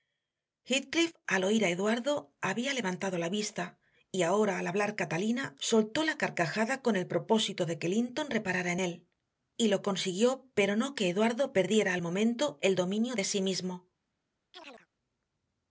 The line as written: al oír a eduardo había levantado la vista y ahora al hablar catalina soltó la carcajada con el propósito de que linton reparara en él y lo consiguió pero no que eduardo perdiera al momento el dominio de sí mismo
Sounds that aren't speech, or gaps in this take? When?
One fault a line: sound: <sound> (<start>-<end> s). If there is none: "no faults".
sound: chirp (14.5-14.9 s)